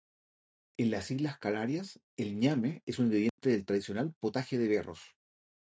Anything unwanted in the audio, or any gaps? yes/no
yes